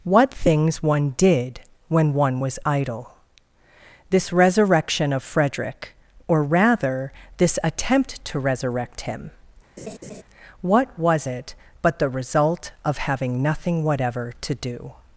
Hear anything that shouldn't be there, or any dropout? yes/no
yes